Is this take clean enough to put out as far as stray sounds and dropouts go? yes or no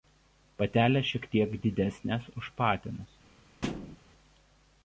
no